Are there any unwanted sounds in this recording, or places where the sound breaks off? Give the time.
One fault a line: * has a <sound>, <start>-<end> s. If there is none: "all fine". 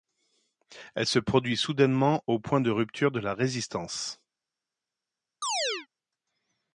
* has a chirp, 5.4-5.9 s